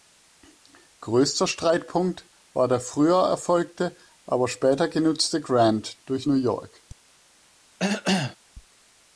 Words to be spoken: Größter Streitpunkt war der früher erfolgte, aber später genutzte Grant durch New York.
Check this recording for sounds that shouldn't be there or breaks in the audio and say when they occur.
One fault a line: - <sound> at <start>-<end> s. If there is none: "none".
- cough at 7.8-8.4 s